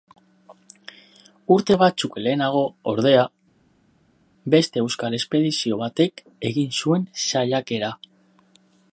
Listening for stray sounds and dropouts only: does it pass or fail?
pass